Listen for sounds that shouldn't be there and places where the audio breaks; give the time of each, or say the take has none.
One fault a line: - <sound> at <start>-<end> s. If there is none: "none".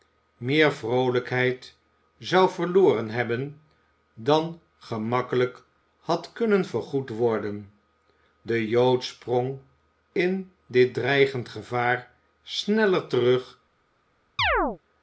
- chirp at 14.4-14.8 s